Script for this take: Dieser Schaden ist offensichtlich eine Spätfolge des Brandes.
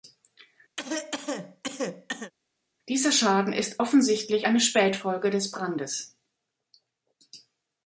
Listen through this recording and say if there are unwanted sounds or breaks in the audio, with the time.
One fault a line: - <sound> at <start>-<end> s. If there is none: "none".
- cough at 0.8-2.3 s